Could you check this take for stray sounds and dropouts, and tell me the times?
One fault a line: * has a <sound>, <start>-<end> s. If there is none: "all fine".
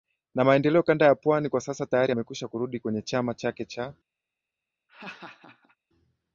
* has a laugh, 4.9-5.8 s